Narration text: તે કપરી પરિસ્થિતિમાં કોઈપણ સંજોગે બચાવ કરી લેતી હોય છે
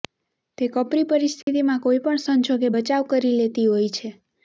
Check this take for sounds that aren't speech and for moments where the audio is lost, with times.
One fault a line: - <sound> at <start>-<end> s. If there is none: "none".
- dropout at 1.4-1.5 s